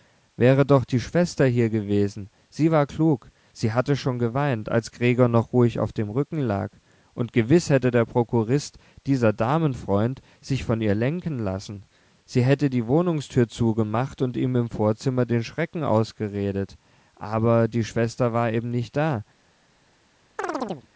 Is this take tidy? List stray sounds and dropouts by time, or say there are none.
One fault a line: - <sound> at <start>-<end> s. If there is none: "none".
- chirp at 20.4-20.9 s